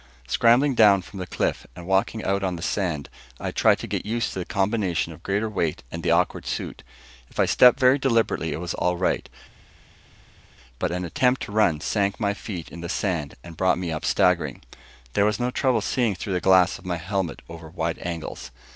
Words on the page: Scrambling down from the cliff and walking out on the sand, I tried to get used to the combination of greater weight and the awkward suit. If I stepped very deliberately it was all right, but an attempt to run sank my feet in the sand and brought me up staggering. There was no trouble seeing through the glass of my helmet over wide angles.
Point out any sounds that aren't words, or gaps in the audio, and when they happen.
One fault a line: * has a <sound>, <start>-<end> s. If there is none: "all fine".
all fine